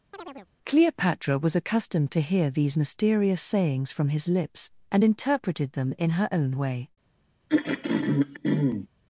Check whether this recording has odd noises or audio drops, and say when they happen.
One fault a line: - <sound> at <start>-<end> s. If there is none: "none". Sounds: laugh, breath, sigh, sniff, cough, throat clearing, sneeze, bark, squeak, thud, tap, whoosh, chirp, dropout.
- chirp at 0.1-0.5 s
- throat clearing at 7.5-8.9 s